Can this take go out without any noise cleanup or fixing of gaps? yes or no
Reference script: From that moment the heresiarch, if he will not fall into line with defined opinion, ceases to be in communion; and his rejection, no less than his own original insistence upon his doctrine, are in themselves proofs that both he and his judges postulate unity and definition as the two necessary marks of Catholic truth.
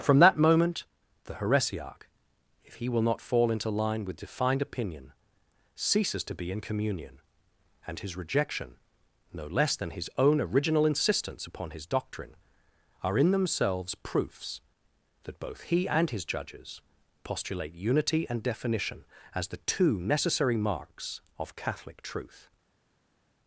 yes